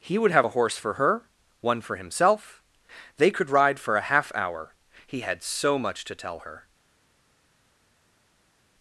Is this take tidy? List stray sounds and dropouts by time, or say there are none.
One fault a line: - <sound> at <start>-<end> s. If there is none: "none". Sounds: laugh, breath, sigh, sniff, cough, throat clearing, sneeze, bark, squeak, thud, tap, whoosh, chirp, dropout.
none